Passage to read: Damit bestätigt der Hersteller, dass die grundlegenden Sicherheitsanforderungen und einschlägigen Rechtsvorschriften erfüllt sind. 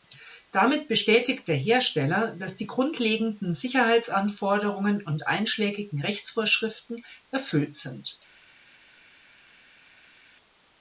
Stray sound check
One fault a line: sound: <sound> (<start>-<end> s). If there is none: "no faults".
no faults